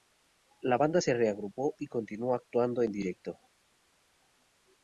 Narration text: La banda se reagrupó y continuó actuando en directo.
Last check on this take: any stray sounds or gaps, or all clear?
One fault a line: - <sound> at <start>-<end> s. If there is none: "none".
none